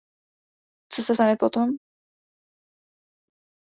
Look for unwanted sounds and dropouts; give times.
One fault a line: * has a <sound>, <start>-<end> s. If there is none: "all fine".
all fine